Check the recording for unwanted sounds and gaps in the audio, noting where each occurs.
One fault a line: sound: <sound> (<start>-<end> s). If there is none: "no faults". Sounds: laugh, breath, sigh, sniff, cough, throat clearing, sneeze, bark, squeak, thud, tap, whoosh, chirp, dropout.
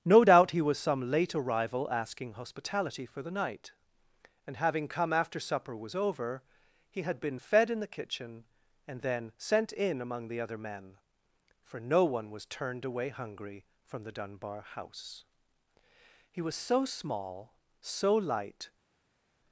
no faults